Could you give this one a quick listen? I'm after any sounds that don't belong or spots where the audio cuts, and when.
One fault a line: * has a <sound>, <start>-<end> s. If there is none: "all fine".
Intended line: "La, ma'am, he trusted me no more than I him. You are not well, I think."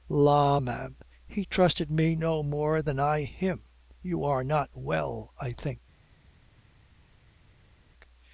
all fine